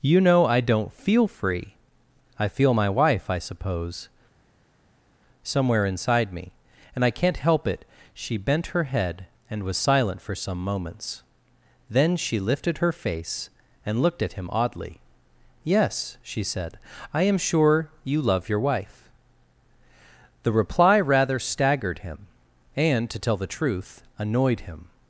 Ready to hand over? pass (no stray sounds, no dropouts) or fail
pass